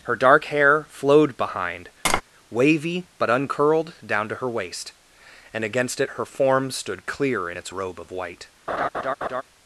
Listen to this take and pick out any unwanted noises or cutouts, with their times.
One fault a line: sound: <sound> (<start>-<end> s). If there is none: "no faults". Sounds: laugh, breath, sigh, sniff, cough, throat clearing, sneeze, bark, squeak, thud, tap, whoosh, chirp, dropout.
sound: tap (2.1-2.2 s)
sound: laugh (8.7-9.4 s)